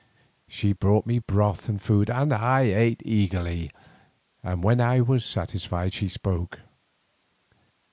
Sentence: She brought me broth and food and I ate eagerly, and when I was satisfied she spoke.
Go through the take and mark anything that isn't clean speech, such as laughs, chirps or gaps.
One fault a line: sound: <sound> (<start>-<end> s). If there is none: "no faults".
no faults